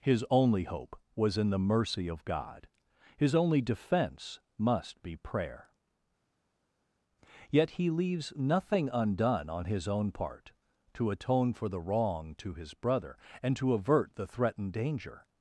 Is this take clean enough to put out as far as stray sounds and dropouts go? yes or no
yes